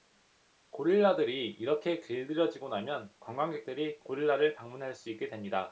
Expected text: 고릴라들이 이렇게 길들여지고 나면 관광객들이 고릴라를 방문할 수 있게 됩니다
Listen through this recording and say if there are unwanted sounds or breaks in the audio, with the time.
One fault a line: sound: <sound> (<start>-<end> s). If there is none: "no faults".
no faults